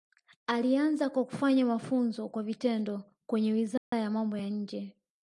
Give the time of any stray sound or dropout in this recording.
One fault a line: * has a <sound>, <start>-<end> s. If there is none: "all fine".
* has a dropout, 3.8-3.9 s